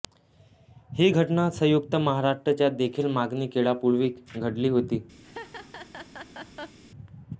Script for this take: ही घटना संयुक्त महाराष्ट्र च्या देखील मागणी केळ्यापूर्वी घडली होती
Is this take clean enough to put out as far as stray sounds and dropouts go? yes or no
no